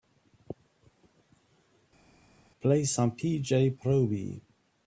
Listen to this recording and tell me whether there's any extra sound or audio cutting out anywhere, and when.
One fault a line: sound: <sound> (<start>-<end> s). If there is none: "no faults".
no faults